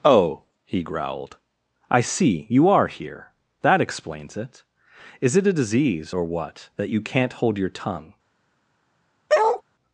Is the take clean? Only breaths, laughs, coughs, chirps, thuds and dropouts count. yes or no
no